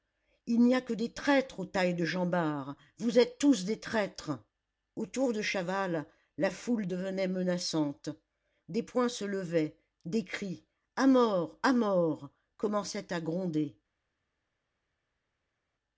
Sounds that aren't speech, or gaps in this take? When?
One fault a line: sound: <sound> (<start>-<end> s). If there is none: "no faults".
no faults